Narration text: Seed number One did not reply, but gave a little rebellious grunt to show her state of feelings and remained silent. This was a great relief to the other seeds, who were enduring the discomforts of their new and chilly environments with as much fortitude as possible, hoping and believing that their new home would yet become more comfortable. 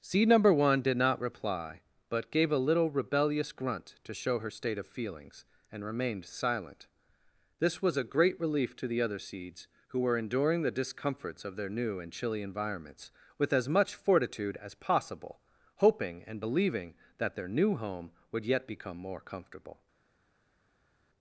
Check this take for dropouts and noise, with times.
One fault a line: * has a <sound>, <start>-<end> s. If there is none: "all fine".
all fine